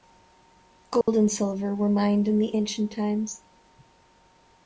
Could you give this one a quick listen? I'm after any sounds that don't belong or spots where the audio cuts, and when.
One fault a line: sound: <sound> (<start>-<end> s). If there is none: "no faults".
sound: dropout (1.0-1.1 s)